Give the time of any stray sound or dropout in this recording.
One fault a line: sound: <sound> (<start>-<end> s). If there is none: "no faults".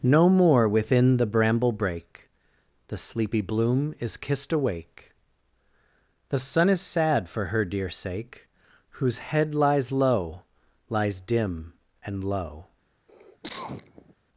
sound: cough (13.1-14.1 s)